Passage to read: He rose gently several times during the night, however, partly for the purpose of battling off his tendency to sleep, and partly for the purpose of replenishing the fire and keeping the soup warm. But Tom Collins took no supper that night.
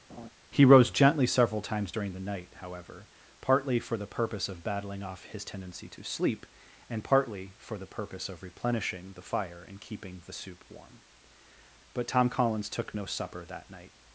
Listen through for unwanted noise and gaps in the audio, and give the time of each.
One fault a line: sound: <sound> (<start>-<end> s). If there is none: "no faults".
sound: laugh (0.1-0.3 s)